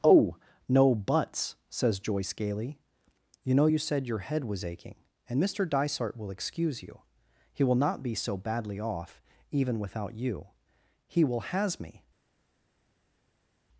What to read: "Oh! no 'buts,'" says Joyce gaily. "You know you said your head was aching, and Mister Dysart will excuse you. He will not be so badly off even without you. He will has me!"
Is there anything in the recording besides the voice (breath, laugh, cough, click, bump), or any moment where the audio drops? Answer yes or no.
no